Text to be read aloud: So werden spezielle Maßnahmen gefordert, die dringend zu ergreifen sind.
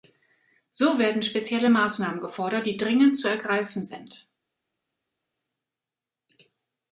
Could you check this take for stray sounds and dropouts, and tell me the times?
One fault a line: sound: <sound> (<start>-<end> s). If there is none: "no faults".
no faults